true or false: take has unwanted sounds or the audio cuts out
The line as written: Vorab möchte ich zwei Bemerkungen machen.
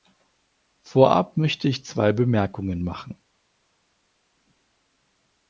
false